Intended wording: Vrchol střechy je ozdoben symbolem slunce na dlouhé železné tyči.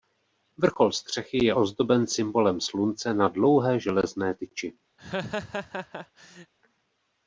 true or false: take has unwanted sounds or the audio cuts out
true